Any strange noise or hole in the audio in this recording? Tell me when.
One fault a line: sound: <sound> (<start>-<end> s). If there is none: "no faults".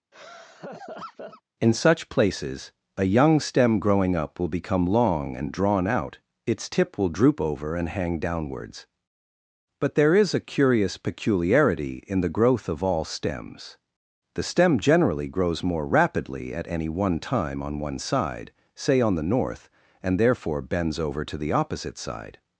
sound: laugh (0.1-1.4 s)